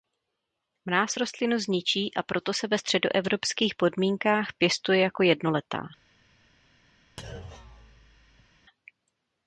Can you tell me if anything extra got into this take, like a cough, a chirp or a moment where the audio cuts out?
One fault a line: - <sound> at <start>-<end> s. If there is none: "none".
- thud at 7.2-8.5 s